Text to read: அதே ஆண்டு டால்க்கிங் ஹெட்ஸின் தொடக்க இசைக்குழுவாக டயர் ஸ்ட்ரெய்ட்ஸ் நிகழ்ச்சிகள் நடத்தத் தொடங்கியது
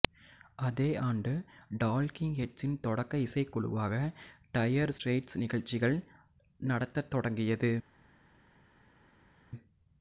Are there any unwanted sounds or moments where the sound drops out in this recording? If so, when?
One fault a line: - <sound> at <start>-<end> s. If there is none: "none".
none